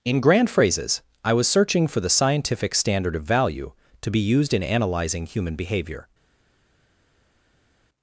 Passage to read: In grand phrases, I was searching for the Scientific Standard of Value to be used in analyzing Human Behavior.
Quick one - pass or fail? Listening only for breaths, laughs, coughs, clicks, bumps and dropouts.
pass